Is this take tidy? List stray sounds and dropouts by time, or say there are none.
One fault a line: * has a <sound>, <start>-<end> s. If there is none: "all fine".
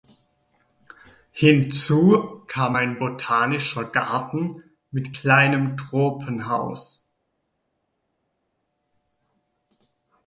all fine